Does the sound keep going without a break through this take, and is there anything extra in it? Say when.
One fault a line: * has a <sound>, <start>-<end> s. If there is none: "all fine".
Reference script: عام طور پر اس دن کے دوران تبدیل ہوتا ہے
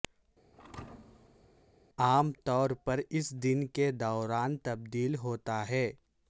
* has a thud, 0.5-1.7 s